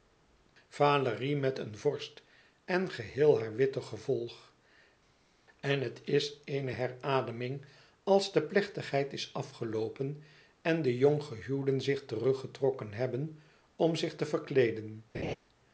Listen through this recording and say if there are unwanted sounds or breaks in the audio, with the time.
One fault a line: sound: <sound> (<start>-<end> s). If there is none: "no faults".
sound: laugh (15.1-15.3 s)